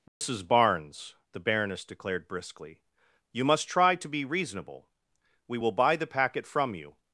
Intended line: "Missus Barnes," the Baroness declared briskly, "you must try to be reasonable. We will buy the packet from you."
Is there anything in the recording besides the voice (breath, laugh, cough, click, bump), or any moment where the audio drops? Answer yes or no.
yes